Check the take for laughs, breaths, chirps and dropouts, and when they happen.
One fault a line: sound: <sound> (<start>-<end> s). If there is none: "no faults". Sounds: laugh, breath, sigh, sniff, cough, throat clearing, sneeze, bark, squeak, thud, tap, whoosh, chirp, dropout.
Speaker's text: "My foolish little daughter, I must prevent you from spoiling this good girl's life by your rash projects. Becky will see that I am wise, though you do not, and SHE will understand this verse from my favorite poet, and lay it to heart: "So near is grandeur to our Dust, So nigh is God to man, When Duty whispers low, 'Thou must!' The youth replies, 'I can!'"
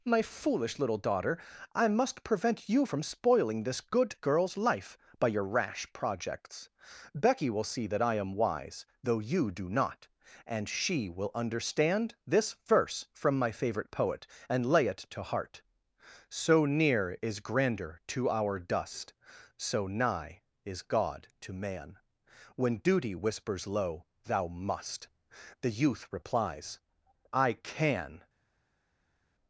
no faults